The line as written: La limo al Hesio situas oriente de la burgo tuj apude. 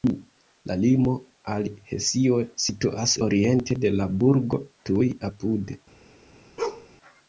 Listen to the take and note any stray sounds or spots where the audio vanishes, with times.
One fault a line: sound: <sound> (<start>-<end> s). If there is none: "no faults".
sound: bark (6.6-6.9 s)